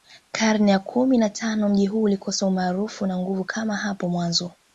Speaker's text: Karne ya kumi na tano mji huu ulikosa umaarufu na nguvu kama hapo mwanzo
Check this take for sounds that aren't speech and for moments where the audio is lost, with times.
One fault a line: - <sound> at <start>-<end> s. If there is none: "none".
none